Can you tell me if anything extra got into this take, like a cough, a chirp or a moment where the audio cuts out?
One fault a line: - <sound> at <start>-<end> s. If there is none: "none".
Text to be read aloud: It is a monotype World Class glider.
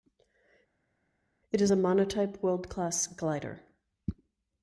none